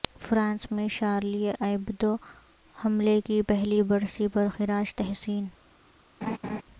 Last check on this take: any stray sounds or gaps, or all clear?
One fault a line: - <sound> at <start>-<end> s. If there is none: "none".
- laugh at 6.2-6.6 s